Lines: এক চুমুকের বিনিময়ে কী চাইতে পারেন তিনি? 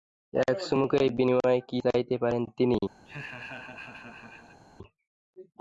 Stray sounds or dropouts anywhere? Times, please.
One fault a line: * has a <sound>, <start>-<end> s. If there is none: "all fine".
* has a laugh, 3.0-4.6 s